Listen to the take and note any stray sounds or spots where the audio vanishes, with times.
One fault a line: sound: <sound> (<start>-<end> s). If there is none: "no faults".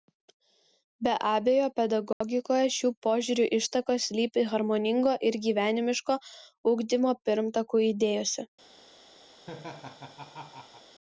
sound: dropout (2.1-2.2 s)
sound: laugh (9.3-10.9 s)